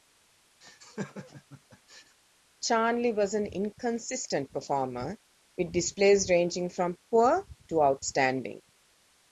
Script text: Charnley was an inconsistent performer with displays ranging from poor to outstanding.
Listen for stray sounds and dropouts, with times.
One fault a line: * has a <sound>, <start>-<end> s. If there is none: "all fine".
* has a laugh, 0.6-2.2 s